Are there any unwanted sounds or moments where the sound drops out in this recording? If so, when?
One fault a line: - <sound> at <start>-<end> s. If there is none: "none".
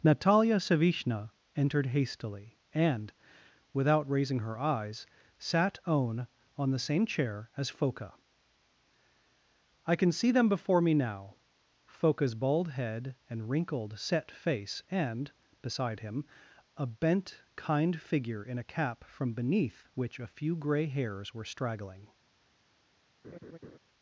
- laugh at 23.2-23.8 s